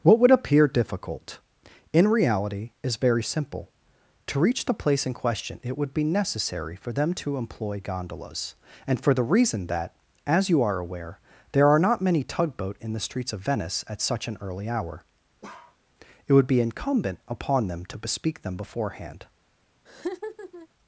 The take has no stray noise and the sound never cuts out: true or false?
false